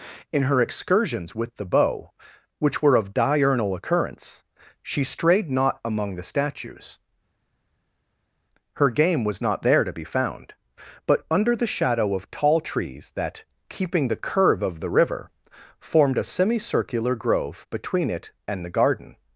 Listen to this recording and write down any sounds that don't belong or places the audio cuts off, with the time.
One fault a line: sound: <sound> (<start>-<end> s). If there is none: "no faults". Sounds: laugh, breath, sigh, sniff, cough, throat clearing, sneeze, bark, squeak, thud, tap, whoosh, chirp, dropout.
no faults